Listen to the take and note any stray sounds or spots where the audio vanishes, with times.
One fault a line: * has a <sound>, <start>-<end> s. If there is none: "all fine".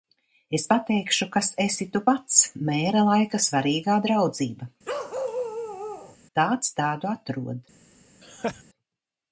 * has a bark, 4.8-6.2 s
* has a laugh, 8.2-8.6 s